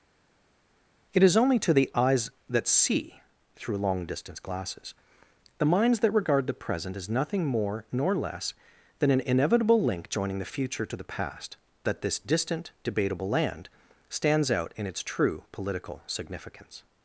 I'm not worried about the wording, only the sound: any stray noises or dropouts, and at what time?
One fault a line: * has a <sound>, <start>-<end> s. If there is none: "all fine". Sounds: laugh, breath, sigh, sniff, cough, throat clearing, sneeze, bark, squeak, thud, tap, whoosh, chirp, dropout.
all fine